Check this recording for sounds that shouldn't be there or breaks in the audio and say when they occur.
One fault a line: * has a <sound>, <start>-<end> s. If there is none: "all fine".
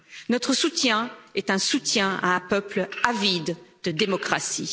all fine